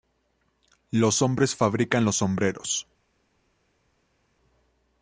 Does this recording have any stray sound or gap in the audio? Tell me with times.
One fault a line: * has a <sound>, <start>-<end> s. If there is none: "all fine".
all fine